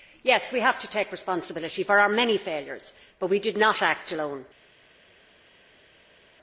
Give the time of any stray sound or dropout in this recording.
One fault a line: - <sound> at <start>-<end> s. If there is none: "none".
none